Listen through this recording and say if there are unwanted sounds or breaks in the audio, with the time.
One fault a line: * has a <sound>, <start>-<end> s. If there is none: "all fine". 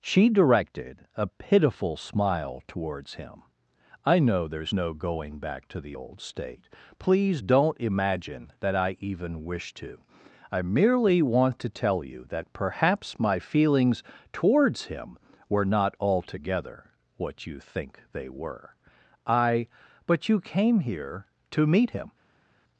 all fine